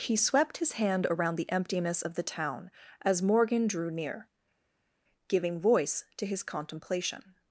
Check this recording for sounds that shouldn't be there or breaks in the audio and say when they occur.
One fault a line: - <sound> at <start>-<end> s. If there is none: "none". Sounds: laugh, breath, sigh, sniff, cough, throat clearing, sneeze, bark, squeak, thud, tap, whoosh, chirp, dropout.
none